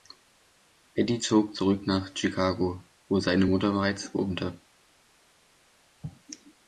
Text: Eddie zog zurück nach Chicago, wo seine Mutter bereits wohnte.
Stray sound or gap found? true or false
false